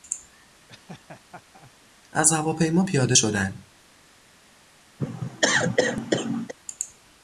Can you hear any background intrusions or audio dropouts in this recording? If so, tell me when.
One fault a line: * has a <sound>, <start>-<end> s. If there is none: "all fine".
* has a laugh, 0.7-1.7 s
* has a cough, 5.0-6.5 s